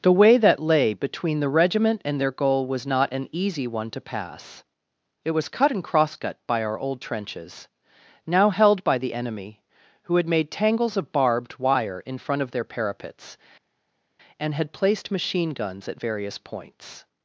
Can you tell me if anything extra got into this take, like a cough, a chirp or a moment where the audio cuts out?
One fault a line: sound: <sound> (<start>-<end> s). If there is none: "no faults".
no faults